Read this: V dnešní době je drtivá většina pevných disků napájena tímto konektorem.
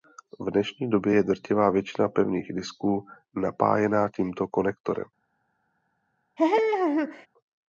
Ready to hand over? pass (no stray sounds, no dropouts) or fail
fail